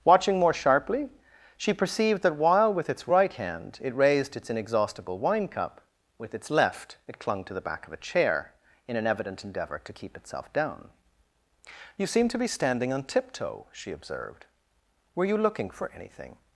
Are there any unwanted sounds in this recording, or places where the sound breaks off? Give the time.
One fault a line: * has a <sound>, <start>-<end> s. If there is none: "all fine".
all fine